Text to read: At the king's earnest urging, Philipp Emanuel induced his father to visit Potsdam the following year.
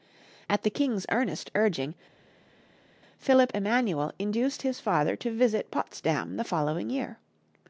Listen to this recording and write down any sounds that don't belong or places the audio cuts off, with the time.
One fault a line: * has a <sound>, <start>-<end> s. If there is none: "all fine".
all fine